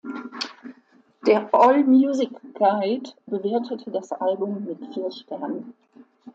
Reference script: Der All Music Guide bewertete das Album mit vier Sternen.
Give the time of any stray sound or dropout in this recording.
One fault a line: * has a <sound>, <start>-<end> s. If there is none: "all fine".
all fine